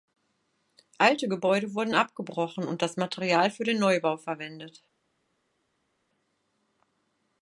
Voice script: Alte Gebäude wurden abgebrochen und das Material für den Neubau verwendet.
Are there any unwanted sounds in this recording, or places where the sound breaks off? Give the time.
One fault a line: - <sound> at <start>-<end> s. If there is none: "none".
none